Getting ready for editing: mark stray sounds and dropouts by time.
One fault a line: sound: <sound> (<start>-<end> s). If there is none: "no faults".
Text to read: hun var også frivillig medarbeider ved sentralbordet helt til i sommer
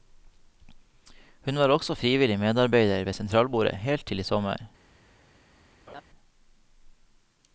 sound: laugh (5.9-6.0 s)